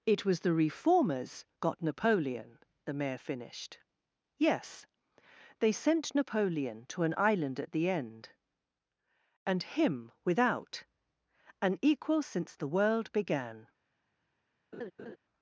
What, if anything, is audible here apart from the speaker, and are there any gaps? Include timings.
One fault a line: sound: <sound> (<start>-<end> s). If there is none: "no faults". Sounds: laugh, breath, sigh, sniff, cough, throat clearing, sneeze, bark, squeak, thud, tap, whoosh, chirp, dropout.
sound: laugh (14.7-15.2 s)